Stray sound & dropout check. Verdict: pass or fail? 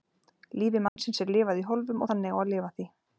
fail